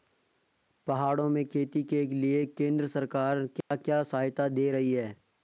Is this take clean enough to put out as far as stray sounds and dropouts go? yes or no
no